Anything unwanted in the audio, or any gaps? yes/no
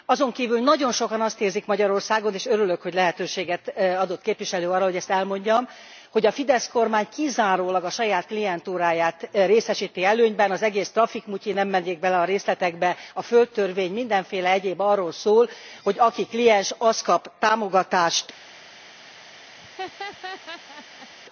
yes